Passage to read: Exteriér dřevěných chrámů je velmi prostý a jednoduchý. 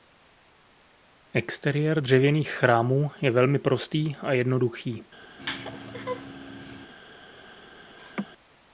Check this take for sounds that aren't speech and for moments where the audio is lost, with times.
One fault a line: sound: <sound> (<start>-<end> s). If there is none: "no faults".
sound: laugh (5.4-6.9 s)
sound: laugh (8.0-8.3 s)